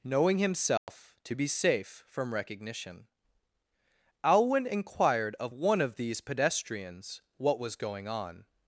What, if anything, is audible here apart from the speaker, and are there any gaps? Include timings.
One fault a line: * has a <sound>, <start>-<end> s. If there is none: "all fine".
* has a dropout, 0.8-0.9 s